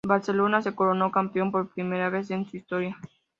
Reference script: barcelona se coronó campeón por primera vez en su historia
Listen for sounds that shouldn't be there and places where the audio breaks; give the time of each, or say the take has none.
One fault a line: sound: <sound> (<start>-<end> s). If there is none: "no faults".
no faults